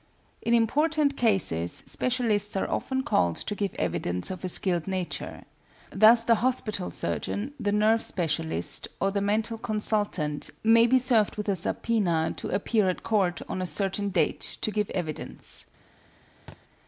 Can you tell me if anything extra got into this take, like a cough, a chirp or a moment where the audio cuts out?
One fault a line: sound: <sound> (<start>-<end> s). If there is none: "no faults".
sound: thud (16.5-16.6 s)